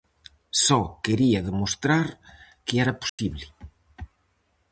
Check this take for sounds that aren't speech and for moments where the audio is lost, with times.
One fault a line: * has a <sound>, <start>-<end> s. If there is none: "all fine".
* has a dropout, 3.1-3.2 s